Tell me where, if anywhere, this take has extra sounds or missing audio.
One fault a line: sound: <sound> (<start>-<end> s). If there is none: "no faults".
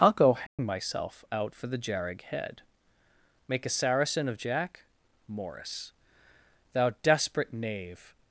sound: dropout (0.5-0.6 s)